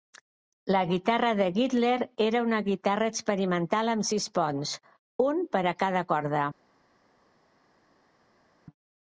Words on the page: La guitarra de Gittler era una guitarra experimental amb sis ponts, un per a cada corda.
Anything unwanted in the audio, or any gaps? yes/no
no